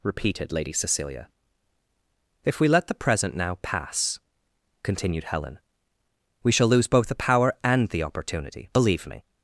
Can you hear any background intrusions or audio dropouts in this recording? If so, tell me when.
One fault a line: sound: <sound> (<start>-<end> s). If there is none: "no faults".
no faults